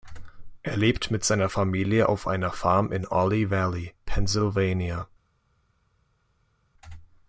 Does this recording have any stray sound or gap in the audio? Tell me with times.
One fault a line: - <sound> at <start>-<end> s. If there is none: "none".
none